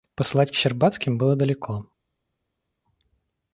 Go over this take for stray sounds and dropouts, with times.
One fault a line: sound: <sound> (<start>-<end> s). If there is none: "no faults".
no faults